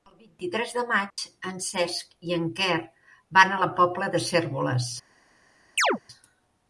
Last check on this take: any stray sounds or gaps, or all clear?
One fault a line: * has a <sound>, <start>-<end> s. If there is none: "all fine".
* has a dropout, 1.1-1.2 s
* has a chirp, 5.8-6.0 s